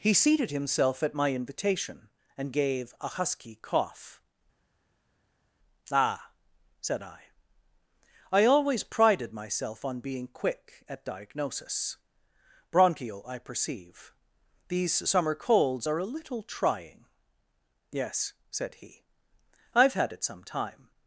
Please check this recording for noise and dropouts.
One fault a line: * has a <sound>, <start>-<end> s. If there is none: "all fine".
all fine